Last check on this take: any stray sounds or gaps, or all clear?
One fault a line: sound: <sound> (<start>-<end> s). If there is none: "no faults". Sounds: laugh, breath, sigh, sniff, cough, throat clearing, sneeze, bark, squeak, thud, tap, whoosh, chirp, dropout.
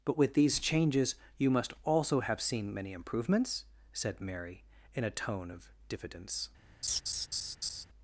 sound: laugh (6.8-7.8 s)